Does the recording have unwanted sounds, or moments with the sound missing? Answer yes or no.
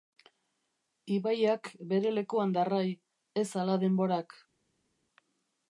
no